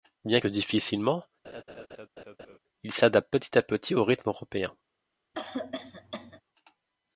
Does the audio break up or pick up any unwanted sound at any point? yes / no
yes